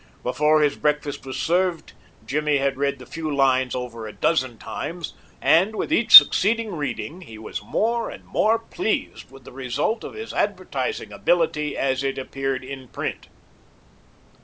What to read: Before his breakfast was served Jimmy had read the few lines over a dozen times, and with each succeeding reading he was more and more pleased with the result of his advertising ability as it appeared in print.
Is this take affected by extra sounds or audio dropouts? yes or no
no